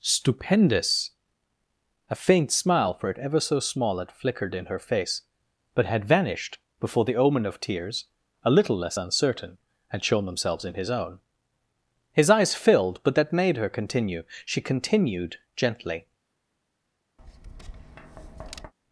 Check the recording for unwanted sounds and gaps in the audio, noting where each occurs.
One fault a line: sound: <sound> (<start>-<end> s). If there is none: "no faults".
sound: tap (17.2-18.7 s)